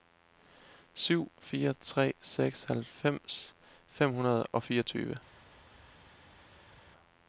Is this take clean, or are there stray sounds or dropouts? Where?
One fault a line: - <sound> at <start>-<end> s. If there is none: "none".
none